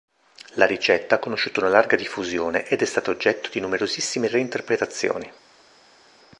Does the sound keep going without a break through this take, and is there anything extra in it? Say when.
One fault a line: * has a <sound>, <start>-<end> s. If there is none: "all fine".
all fine